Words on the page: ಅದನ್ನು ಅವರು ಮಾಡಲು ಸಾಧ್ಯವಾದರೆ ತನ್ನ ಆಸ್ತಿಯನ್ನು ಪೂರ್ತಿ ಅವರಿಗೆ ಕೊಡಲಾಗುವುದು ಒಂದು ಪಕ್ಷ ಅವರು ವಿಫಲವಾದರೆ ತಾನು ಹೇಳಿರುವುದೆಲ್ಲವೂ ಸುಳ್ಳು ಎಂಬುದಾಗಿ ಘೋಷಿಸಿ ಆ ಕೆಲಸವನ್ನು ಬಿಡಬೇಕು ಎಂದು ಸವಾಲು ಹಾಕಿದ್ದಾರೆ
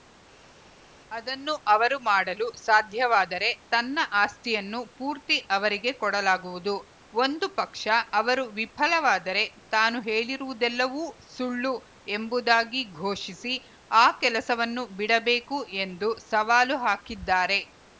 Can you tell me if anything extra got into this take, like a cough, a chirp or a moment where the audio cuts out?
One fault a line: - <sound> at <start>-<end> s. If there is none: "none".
none